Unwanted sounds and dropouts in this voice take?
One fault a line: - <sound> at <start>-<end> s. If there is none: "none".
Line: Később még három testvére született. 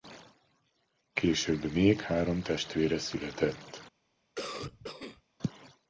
- cough at 4.4-5.2 s